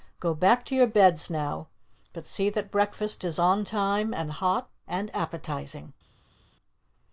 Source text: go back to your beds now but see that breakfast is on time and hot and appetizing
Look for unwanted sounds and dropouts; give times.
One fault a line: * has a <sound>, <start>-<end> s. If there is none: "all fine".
all fine